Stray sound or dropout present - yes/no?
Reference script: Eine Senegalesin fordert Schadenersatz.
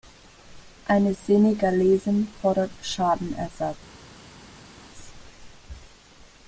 no